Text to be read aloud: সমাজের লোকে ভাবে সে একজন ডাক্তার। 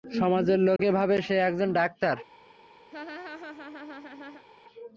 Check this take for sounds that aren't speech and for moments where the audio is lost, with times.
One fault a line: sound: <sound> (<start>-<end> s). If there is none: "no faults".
sound: dropout (0.8-0.8 s)
sound: laugh (2.9-4.5 s)